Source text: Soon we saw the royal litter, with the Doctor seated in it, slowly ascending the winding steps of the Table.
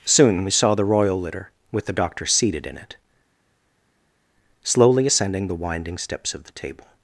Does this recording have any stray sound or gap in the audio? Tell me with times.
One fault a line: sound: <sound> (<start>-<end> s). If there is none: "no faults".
no faults